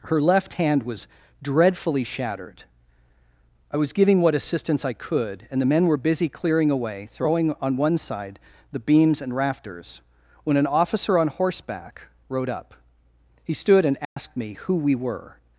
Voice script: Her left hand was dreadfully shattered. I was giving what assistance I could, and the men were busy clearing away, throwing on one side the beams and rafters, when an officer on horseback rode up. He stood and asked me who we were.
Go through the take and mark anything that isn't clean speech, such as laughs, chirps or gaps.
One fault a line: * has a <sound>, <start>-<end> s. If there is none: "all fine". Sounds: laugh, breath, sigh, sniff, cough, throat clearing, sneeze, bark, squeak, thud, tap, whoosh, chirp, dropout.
* has a dropout, 14.0-14.2 s